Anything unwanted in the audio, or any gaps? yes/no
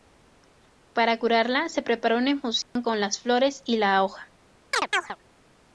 yes